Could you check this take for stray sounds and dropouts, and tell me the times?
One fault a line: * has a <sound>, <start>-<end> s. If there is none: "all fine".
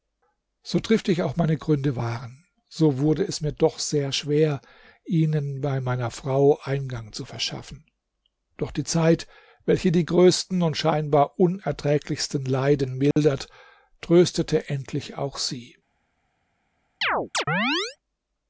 * has a dropout, 13.1-13.2 s
* has a chirp, 17.0-18.0 s